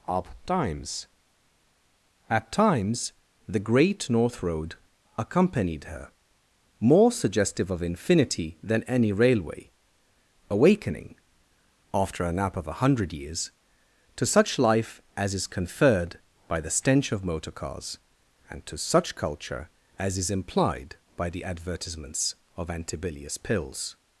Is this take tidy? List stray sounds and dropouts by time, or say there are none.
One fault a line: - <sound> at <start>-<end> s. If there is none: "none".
none